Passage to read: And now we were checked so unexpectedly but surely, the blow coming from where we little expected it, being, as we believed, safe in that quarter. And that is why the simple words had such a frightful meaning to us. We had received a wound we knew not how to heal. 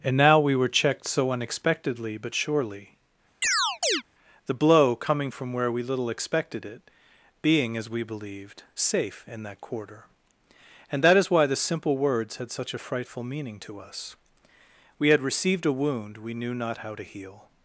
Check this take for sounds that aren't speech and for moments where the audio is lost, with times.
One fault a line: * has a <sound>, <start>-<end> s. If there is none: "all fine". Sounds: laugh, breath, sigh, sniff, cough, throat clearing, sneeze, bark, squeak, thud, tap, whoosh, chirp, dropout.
* has a chirp, 3.4-4.0 s